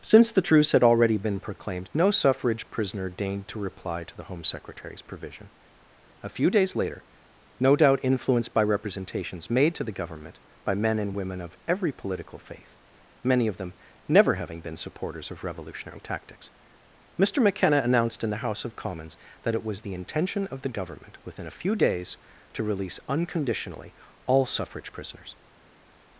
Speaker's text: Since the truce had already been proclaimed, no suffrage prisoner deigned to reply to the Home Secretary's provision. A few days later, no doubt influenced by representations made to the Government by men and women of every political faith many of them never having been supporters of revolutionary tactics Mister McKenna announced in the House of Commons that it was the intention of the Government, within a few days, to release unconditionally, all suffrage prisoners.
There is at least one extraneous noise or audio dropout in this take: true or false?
false